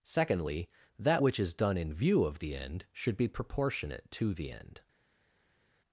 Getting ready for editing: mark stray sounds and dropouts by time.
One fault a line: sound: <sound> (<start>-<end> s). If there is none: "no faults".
no faults